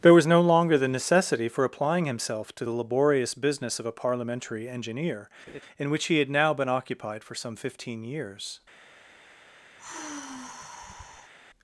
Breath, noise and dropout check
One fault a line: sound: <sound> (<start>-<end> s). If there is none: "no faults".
sound: laugh (5.5-5.6 s)
sound: sigh (9.8-11.3 s)